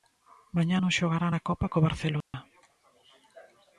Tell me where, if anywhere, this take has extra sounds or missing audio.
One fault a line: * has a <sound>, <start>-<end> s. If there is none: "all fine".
* has a dropout, 2.2-2.3 s